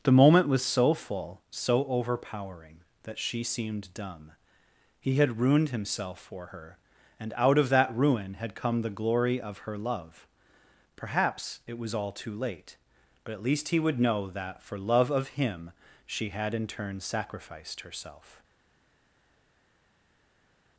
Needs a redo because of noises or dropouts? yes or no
no